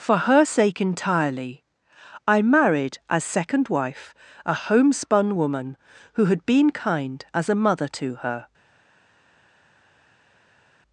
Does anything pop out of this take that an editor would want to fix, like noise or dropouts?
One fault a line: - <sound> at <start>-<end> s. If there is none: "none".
none